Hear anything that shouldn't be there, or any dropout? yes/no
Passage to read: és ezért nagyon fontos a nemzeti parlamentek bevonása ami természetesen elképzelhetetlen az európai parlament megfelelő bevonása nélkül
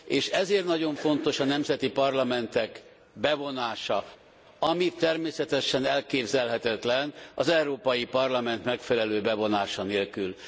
no